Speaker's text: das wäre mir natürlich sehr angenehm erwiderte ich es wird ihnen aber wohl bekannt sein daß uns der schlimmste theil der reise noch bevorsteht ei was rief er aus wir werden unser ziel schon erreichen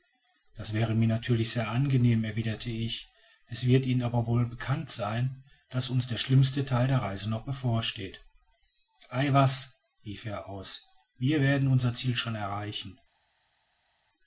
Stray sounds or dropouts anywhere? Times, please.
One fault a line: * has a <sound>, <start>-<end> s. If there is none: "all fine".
all fine